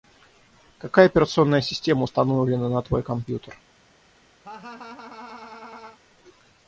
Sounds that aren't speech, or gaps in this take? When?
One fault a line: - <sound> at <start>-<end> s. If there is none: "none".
- laugh at 4.4-6.0 s